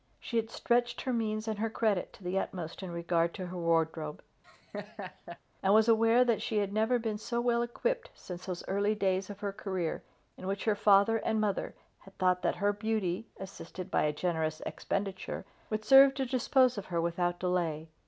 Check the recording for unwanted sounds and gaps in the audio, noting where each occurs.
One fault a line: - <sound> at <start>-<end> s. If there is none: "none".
- laugh at 4.4-5.4 s